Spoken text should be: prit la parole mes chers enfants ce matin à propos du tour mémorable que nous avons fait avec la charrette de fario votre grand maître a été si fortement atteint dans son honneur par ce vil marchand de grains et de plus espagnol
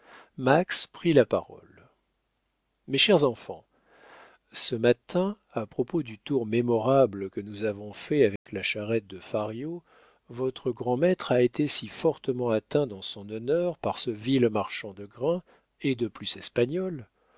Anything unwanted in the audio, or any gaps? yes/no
yes